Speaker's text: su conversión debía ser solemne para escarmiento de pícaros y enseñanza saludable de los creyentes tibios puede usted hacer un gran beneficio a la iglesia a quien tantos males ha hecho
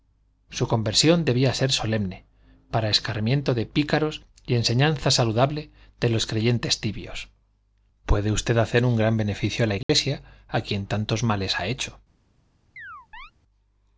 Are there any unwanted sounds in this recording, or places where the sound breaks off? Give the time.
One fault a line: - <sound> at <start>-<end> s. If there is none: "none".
- dropout at 9.8-9.9 s
- chirp at 12.8-13.3 s